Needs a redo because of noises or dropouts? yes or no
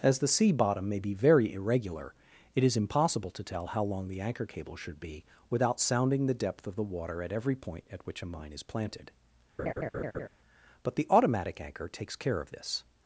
yes